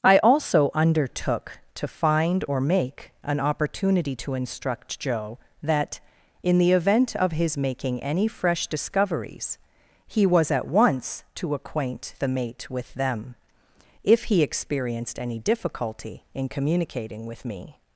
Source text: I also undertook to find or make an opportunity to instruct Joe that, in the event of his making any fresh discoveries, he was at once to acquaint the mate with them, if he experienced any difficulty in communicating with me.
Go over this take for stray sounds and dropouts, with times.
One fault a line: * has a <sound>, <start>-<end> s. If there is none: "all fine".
all fine